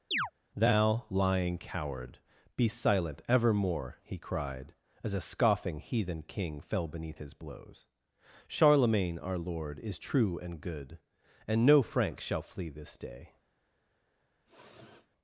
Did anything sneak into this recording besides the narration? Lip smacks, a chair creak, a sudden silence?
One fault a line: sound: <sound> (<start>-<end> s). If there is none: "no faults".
sound: chirp (0.1-0.3 s)
sound: sniff (14.5-15.1 s)